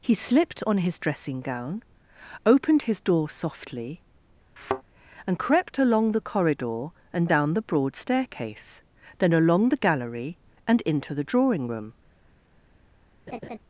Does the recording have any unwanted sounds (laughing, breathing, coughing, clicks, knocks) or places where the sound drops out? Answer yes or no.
yes